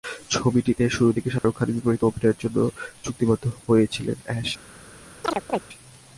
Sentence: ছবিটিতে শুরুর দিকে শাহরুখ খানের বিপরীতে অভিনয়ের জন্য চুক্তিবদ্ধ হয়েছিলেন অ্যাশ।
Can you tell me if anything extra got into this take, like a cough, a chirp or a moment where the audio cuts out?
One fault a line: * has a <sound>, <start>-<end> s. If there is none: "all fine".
* has a dropout, 1.4-1.4 s
* has a chirp, 5.2-5.6 s